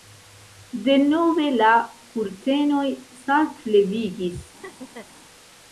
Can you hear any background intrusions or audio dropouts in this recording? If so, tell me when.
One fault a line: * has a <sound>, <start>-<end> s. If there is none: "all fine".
* has a laugh, 4.6-5.1 s